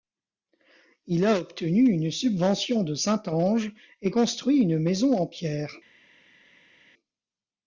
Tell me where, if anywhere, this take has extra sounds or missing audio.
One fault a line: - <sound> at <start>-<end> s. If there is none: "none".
none